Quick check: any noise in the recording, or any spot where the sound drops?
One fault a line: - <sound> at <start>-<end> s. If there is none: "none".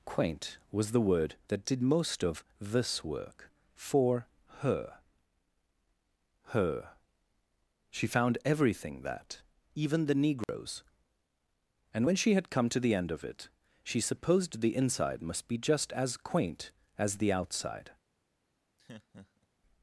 - dropout at 10.4-10.5 s
- laugh at 18.8-19.5 s